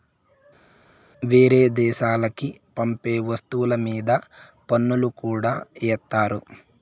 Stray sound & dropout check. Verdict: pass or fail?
pass